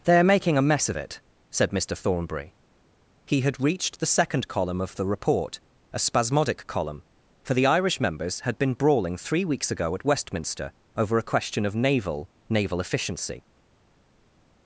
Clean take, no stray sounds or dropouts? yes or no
yes